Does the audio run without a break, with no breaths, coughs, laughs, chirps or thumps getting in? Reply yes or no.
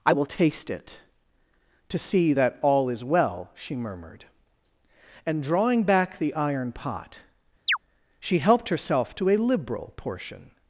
no